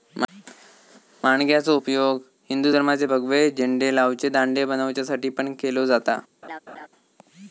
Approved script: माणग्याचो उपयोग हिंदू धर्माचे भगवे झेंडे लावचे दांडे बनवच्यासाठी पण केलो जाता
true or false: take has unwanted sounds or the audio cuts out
true